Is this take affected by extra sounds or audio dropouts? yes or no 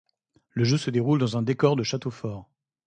no